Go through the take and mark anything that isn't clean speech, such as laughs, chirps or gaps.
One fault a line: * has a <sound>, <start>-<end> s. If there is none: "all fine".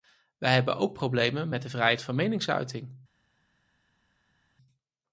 all fine